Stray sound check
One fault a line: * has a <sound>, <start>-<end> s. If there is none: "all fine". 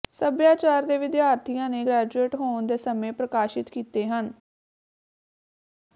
all fine